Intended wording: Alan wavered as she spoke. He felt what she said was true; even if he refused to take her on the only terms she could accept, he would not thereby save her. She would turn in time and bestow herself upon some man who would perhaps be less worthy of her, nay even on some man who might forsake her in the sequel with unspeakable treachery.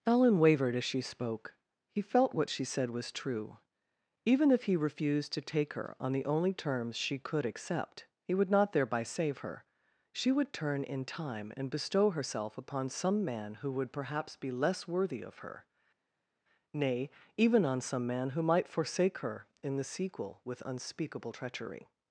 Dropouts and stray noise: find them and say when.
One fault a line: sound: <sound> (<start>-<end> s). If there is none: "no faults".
no faults